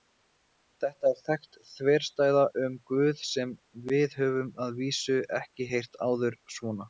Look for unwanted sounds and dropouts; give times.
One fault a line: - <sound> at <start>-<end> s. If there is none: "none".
none